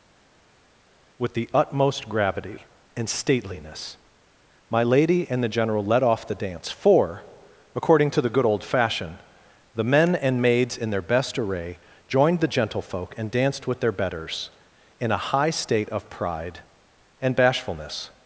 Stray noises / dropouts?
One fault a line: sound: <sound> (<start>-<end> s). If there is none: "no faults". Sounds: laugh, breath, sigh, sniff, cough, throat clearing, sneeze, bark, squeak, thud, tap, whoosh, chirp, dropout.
no faults